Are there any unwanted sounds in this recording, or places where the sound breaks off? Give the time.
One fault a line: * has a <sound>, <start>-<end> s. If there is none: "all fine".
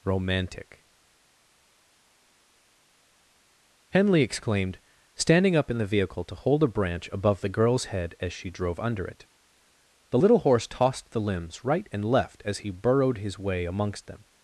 all fine